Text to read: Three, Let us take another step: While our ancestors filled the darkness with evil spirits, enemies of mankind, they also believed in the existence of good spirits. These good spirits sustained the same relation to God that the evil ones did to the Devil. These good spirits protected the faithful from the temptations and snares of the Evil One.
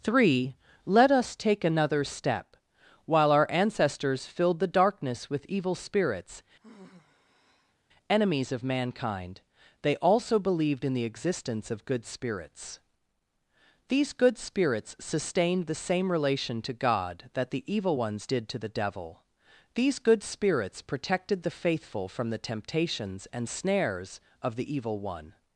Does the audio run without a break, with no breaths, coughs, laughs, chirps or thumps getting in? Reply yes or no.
no